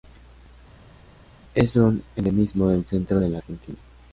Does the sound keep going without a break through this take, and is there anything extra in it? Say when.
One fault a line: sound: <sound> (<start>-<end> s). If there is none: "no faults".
no faults